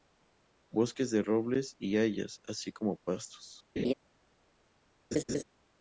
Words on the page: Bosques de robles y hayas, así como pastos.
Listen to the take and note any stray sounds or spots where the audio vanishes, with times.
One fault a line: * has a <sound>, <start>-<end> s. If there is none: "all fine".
* has a laugh, 3.8-3.9 s
* has a laugh, 5.1-5.4 s